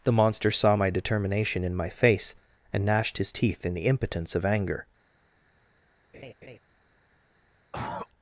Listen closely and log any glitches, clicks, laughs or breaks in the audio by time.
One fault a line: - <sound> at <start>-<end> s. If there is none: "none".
- laugh at 6.1-6.6 s
- cough at 7.7-8.1 s